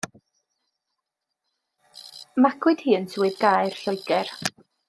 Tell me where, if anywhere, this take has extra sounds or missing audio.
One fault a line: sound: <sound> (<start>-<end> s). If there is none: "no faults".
no faults